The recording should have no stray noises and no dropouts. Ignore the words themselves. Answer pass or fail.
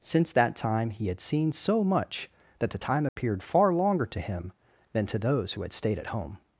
fail